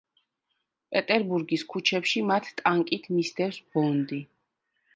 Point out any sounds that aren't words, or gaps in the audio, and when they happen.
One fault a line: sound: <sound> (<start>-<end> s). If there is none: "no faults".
no faults